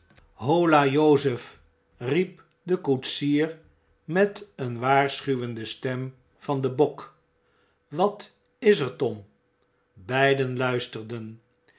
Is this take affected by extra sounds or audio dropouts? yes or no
no